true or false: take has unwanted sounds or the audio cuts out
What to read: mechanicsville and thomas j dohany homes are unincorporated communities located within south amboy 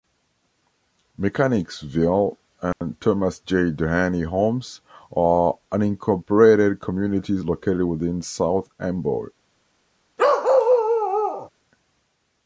true